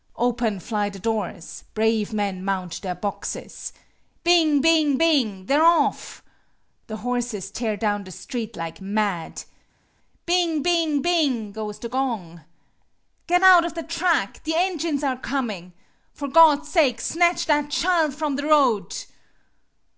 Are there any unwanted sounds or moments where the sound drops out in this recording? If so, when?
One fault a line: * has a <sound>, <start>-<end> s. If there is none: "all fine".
all fine